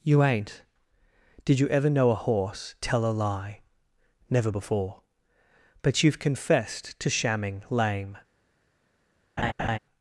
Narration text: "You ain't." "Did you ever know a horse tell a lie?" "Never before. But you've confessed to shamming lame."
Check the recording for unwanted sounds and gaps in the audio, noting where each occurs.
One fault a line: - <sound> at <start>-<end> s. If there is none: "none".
- laugh at 9.4-9.8 s